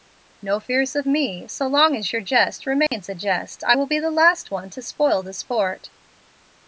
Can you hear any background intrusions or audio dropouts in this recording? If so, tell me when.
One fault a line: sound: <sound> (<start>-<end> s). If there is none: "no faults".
sound: dropout (2.9-2.9 s)